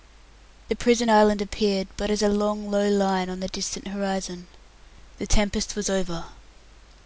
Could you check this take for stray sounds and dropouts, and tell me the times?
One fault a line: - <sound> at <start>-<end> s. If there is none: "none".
none